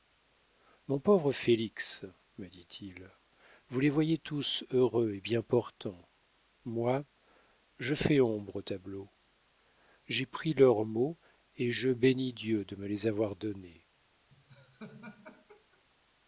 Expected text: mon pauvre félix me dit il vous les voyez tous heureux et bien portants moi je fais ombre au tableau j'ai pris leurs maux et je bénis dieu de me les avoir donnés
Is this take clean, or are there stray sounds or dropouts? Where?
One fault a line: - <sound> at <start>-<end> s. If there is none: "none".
- laugh at 14.3-15.8 s